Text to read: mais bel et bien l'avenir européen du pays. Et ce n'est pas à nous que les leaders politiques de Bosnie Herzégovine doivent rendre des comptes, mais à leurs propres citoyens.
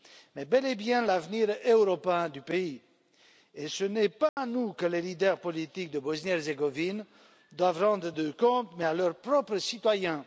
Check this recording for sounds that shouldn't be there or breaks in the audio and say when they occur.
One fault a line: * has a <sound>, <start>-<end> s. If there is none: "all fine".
* has a dropout, 4.3-4.4 s